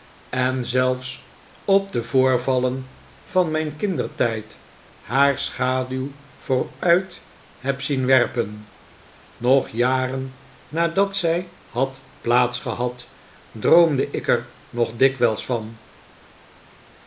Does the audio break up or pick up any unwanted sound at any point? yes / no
no